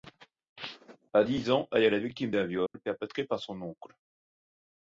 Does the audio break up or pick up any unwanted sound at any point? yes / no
yes